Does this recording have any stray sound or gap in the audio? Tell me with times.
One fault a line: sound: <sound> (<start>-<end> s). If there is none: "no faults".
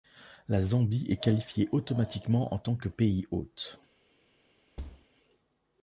sound: thud (4.8-5.1 s)